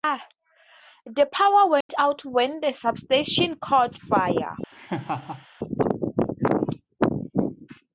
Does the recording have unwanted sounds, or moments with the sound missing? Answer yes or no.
yes